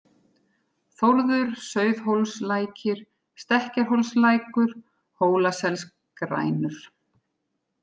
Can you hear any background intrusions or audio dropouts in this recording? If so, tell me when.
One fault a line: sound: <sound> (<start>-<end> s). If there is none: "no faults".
no faults